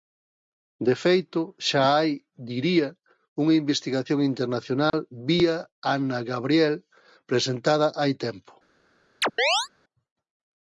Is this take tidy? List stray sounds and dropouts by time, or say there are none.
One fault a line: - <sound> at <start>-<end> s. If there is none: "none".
- dropout at 4.9-4.9 s
- chirp at 9.2-9.7 s